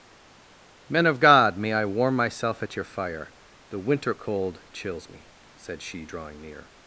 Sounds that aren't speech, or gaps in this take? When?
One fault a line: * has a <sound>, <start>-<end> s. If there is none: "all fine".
all fine